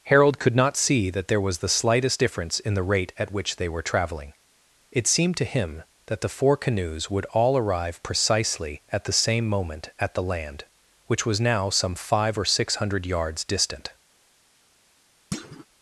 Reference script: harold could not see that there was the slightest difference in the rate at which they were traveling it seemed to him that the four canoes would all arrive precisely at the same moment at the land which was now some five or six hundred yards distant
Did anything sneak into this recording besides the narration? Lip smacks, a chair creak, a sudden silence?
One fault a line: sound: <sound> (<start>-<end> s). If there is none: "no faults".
sound: thud (15.3-15.7 s)